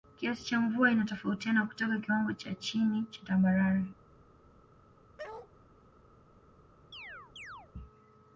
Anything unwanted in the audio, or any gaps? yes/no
yes